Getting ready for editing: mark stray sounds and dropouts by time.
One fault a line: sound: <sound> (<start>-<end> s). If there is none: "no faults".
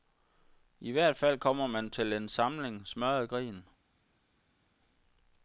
no faults